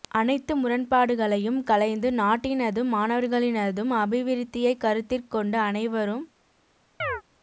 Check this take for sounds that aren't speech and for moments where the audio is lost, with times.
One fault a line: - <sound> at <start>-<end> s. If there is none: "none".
- chirp at 7.0-7.2 s